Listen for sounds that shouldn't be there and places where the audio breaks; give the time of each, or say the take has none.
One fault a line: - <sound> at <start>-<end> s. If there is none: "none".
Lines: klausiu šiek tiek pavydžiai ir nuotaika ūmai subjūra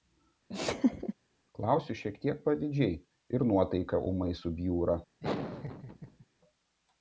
- laugh at 0.5-1.1 s
- laugh at 5.2-6.3 s